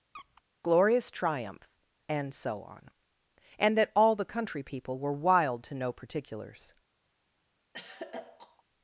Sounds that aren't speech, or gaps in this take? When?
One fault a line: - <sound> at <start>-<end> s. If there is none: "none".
- squeak at 0.1-0.4 s
- throat clearing at 7.7-8.6 s